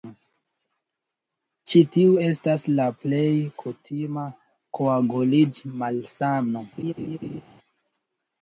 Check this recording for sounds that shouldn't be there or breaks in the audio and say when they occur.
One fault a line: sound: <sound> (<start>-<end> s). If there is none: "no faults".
sound: laugh (6.8-7.4 s)